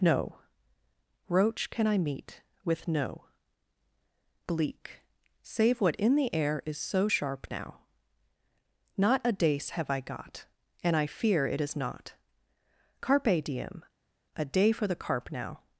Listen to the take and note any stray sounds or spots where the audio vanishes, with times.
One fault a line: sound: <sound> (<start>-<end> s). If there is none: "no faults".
no faults